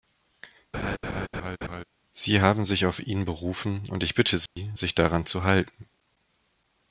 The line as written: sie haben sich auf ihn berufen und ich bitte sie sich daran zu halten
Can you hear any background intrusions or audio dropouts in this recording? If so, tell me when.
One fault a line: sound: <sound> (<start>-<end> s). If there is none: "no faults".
sound: laugh (0.7-1.8 s)
sound: dropout (4.5-4.6 s)